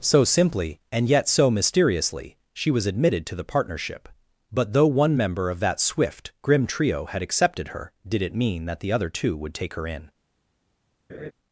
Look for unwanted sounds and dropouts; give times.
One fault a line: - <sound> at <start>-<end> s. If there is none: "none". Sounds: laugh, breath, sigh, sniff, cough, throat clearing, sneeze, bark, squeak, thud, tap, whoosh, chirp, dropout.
- laugh at 11.1-11.3 s